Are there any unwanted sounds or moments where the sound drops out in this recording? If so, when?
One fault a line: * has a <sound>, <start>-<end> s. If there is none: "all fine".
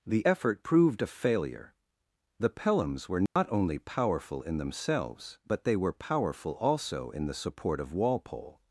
* has a dropout, 3.3-3.4 s